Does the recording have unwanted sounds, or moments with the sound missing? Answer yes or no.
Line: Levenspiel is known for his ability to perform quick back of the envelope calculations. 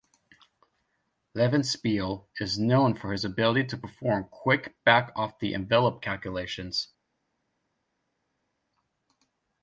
no